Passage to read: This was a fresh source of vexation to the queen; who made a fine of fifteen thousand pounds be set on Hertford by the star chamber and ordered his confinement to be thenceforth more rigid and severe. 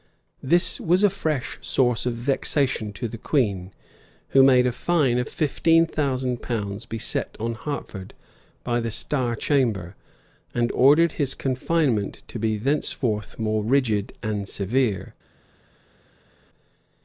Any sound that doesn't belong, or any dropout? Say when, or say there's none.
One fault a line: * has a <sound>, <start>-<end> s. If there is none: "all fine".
all fine